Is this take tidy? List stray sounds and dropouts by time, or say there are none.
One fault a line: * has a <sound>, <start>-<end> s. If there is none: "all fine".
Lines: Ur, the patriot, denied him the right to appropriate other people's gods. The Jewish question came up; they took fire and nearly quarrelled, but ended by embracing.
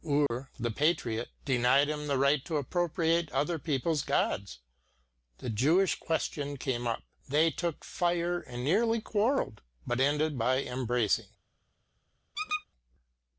* has a dropout, 0.3-0.3 s
* has a squeak, 12.3-12.6 s